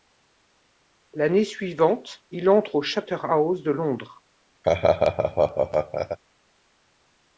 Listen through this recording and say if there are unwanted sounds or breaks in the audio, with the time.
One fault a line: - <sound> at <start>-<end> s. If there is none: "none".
- laugh at 4.6-6.2 s